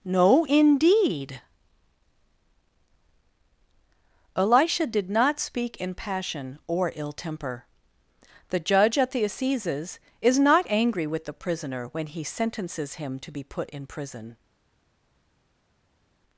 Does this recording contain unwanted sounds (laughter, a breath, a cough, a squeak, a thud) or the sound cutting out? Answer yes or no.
no